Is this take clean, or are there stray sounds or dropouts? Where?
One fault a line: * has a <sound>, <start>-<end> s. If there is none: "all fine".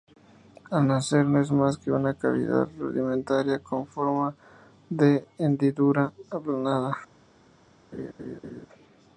* has a laugh, 7.9-8.7 s